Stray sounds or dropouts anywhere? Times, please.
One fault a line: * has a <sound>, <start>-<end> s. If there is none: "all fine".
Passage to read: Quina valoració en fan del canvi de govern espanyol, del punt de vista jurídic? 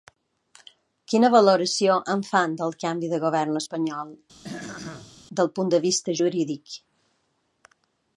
* has a throat clearing, 4.4-5.2 s